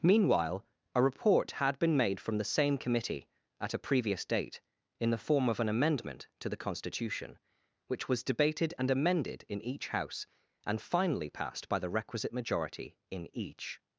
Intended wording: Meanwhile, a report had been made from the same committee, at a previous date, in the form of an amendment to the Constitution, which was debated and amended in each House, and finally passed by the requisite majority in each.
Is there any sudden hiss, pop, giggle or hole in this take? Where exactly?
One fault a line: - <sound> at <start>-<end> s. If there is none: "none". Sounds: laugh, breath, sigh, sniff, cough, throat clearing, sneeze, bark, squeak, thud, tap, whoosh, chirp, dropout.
none